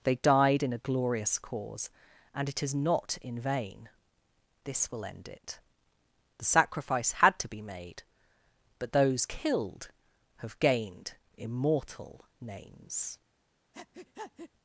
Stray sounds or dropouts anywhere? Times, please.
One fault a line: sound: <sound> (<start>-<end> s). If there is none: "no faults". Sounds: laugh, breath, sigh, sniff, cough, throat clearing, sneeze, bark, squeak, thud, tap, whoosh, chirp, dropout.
sound: breath (13.7-14.5 s)